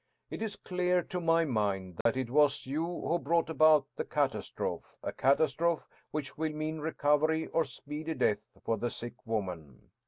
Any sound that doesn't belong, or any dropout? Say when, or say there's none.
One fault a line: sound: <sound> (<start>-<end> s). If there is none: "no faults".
sound: dropout (2.0-2.1 s)